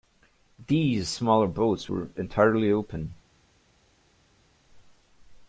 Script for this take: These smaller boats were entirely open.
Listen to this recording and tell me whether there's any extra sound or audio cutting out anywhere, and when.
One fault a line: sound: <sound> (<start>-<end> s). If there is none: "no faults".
no faults